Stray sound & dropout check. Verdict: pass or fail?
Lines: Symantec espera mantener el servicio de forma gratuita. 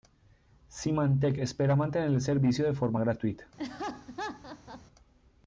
fail